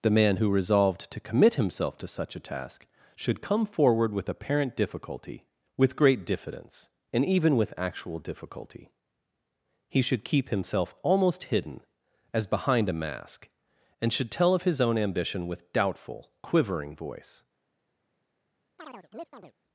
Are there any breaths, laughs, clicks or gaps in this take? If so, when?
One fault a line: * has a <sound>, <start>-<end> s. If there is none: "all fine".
* has a chirp, 18.8-19.5 s